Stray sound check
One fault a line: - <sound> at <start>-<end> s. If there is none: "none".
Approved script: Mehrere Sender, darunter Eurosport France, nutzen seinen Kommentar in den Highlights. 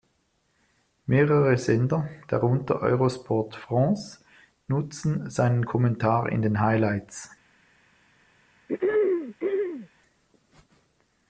- throat clearing at 8.7-9.9 s